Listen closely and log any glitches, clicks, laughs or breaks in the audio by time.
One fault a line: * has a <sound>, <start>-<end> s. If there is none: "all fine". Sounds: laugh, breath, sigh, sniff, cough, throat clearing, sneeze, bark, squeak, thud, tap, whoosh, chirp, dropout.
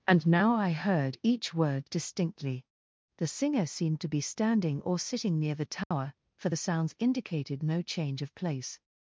* has a dropout, 5.8-5.9 s